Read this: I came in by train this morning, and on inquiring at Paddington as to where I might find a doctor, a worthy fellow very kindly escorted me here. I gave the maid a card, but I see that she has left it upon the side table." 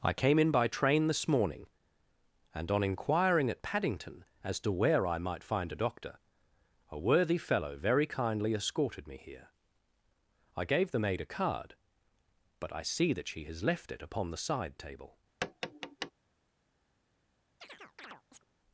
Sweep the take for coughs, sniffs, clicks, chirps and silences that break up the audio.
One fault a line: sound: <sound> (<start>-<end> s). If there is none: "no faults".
sound: tap (15.4-16.1 s)
sound: chirp (17.6-18.4 s)